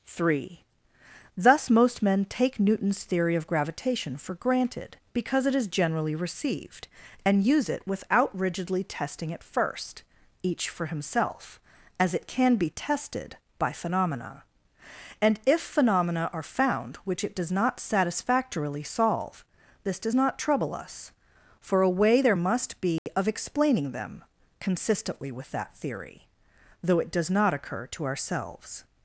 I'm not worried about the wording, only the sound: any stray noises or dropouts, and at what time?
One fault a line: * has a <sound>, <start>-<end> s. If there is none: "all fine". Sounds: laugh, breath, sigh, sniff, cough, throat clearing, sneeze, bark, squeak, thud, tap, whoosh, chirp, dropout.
* has a dropout, 23.0-23.1 s